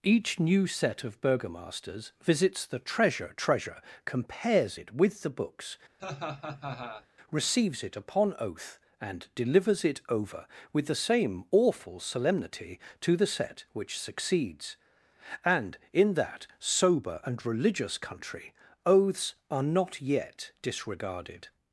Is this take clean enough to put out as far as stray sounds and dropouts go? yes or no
no